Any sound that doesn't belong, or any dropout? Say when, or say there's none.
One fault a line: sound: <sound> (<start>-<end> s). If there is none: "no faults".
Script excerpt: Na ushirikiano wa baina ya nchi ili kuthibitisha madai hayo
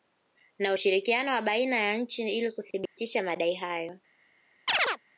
sound: dropout (2.9-3.0 s)
sound: chirp (4.7-5.0 s)